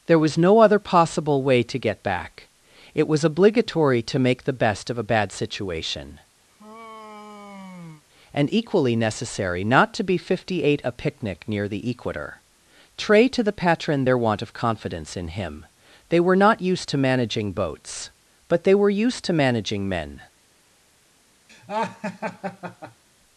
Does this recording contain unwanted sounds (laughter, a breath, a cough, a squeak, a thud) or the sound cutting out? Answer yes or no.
yes